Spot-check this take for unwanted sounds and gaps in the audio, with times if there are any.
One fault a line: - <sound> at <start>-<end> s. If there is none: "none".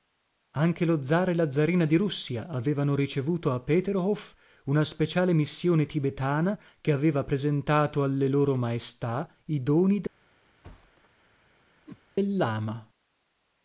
- thud at 10.6-11.1 s
- whoosh at 11.9-12.0 s